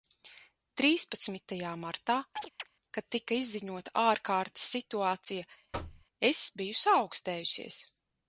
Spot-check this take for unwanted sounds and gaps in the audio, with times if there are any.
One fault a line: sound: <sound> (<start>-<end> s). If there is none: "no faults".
sound: chirp (2.4-2.7 s)
sound: thud (5.7-6.1 s)